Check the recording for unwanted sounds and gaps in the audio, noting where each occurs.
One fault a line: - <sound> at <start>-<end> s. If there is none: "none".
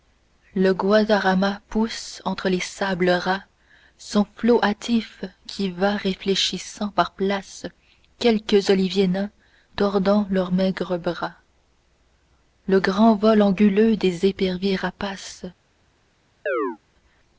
- chirp at 16.5-16.8 s